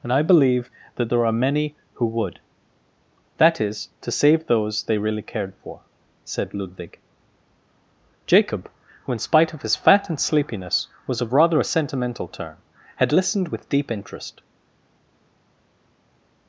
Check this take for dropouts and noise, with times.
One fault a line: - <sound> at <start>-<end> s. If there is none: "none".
none